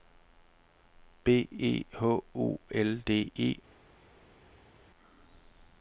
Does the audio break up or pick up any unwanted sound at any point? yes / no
no